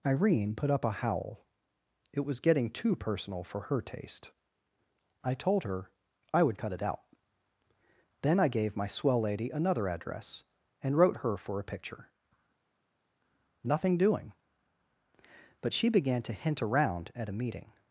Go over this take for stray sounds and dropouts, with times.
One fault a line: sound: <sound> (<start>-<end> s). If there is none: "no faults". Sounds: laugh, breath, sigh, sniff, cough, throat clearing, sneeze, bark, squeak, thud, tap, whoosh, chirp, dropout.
no faults